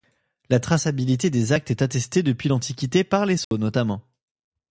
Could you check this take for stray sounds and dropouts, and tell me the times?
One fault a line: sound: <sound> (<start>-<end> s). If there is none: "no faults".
sound: dropout (3.4-3.5 s)